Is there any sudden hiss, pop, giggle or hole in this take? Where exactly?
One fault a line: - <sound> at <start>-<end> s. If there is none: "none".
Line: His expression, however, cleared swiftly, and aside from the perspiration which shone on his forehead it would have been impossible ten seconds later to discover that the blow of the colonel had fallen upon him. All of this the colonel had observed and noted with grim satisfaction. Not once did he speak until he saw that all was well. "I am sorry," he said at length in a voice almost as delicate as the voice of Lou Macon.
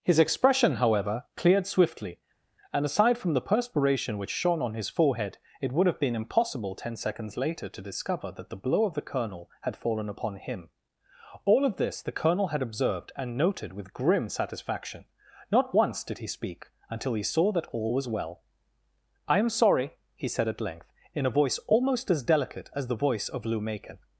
none